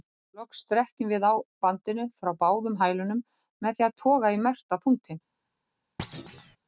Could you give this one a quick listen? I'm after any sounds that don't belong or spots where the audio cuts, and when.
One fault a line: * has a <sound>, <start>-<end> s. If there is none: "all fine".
* has a thud, 6.0-6.6 s